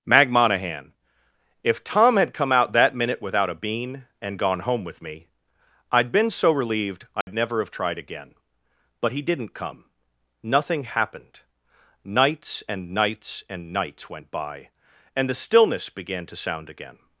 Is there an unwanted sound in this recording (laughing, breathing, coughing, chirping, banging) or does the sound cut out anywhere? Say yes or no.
yes